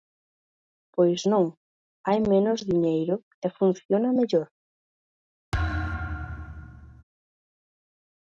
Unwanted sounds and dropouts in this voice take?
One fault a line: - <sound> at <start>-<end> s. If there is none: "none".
- thud at 5.5-7.0 s